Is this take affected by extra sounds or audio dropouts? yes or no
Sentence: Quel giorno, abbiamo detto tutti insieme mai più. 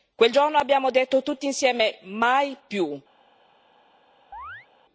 yes